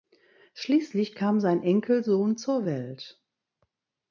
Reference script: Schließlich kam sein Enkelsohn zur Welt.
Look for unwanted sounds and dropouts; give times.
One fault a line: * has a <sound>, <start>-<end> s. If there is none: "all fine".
all fine